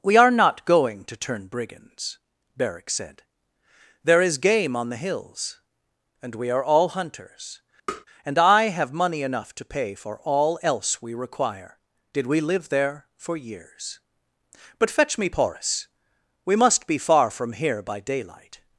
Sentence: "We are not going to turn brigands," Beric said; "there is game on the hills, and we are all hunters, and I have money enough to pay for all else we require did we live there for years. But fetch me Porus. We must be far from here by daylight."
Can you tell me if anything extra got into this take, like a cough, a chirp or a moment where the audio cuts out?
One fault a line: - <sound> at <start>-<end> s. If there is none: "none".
- tap at 7.9-8.1 s